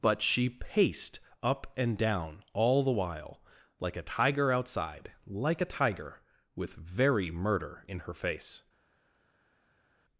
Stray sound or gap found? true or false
false